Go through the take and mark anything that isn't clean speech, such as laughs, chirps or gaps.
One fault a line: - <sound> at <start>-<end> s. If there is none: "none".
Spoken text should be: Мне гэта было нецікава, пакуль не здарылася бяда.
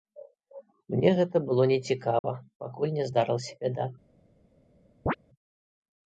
- dropout at 2.2-2.2 s
- chirp at 5.1-5.2 s